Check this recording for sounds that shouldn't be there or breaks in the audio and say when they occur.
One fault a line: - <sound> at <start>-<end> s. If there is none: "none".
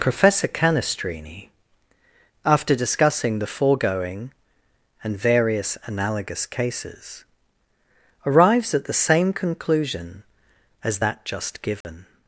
- dropout at 11.8-11.8 s